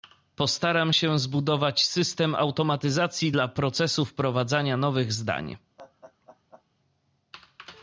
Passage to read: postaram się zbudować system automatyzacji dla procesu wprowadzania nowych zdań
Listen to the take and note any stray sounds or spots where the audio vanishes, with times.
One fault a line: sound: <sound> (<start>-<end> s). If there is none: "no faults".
sound: laugh (5.8-6.6 s)